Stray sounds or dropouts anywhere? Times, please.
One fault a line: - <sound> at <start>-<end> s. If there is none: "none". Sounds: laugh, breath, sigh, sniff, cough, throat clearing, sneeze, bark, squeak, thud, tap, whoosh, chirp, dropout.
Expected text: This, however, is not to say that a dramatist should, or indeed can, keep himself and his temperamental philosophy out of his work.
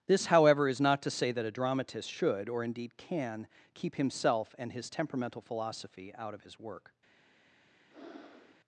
- breath at 7.9-8.6 s